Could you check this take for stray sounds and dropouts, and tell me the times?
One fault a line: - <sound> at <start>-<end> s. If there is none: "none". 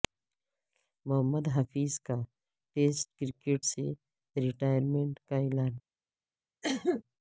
- cough at 6.6-7.0 s